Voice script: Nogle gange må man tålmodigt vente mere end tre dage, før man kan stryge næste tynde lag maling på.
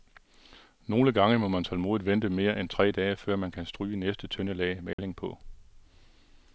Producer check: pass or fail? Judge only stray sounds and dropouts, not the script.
fail